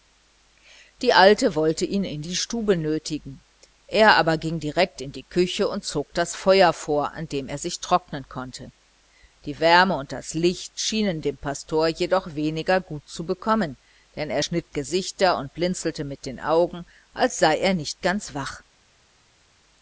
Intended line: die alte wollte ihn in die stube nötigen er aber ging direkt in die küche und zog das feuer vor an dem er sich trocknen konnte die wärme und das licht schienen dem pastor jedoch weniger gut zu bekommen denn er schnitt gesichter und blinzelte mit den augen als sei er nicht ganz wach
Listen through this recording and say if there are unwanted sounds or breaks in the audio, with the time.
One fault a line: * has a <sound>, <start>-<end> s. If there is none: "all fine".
all fine